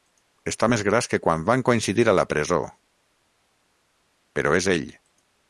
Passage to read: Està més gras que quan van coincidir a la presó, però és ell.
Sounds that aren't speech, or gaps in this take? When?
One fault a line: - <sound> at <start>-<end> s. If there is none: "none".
none